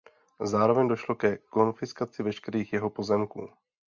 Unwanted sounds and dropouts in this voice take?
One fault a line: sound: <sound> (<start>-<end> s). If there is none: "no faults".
no faults